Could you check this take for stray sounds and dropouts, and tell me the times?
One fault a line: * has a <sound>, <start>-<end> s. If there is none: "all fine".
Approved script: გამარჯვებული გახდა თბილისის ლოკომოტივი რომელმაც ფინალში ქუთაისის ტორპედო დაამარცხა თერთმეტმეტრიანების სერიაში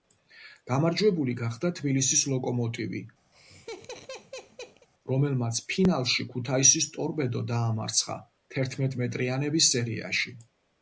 * has a laugh, 3.3-4.9 s